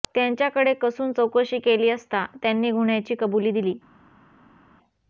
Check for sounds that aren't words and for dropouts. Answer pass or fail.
pass